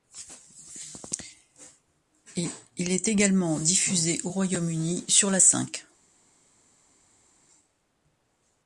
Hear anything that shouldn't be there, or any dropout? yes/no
no